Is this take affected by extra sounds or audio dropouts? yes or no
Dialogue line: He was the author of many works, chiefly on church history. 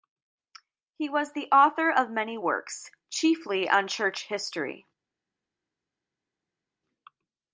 no